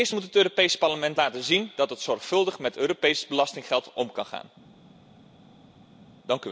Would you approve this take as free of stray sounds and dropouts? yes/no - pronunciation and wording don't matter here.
yes